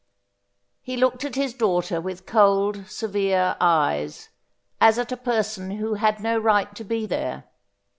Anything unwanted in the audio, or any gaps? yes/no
no